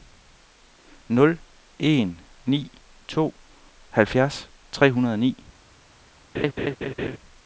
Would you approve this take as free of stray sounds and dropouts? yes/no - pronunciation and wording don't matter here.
no